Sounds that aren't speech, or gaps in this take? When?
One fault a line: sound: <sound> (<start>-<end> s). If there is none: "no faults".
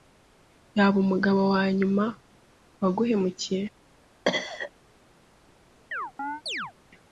sound: cough (4.3-4.7 s)
sound: chirp (5.9-6.7 s)